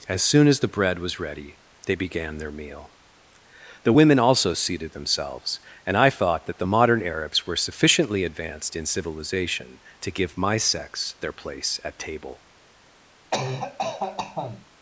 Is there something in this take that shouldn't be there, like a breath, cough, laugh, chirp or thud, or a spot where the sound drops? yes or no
yes